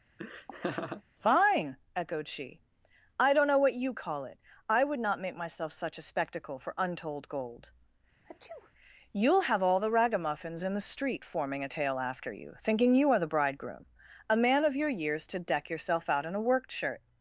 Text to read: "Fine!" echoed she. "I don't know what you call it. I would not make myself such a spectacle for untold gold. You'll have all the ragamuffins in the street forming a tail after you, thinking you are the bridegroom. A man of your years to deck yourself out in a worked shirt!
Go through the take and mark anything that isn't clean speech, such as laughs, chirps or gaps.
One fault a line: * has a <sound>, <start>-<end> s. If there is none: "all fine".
* has a laugh, 0.2-1.0 s
* has a sneeze, 8.2-8.7 s